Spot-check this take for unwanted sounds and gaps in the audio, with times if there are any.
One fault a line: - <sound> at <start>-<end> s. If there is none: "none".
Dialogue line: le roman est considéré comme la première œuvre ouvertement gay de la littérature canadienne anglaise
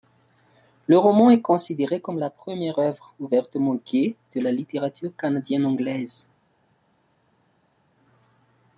none